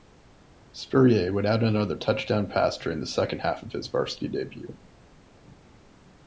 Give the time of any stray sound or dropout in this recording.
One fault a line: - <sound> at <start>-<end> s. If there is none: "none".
none